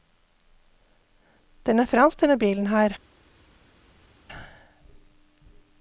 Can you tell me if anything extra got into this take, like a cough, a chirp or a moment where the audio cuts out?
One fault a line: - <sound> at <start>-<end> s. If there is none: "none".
none